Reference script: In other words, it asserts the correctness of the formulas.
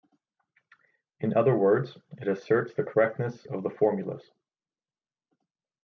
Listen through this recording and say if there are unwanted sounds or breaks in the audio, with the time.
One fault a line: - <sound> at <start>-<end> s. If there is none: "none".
none